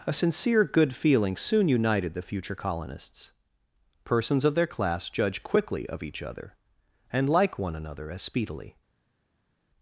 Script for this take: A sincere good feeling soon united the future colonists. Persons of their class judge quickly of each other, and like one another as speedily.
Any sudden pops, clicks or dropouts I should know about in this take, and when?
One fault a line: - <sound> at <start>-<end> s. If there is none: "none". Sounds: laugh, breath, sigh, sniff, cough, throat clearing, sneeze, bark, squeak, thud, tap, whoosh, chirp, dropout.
none